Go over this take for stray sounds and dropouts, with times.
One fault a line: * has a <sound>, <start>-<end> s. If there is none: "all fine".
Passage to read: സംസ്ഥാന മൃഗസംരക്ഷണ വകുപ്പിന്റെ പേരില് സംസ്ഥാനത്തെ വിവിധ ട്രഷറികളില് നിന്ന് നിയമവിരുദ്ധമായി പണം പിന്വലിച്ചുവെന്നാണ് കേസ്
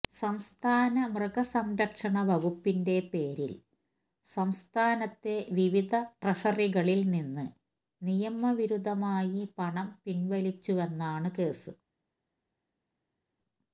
all fine